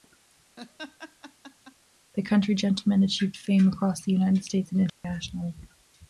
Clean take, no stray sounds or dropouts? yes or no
no